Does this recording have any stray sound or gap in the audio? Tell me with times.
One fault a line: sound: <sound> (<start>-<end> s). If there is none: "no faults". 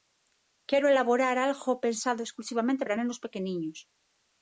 no faults